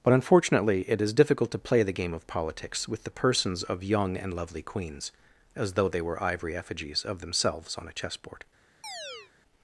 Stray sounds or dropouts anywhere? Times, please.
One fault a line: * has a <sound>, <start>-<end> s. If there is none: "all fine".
* has a chirp, 8.8-9.3 s